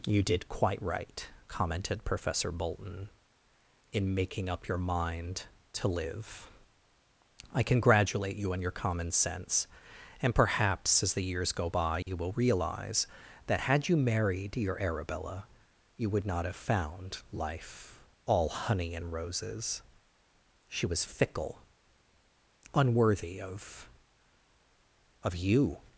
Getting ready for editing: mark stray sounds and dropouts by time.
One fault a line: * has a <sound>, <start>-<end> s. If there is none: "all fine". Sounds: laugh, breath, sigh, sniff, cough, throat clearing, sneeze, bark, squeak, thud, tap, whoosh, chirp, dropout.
* has a dropout, 12.0-12.1 s